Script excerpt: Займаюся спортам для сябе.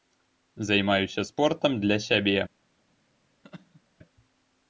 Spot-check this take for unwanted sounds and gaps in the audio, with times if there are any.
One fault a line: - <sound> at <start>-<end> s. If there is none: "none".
- laugh at 3.4-3.8 s